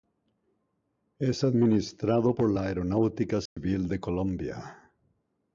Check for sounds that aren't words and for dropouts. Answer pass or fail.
fail